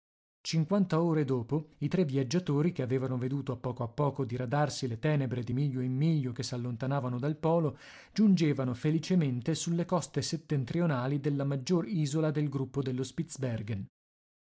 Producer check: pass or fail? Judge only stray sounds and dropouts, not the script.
pass